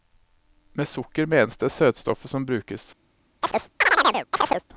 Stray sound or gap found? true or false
true